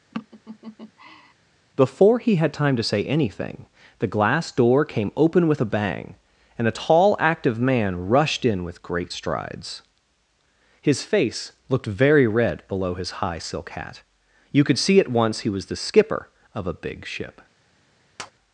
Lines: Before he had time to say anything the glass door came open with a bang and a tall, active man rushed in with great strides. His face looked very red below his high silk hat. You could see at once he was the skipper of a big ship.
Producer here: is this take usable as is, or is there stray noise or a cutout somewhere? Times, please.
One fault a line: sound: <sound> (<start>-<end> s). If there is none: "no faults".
sound: laugh (0.1-1.3 s)
sound: tap (18.2-18.3 s)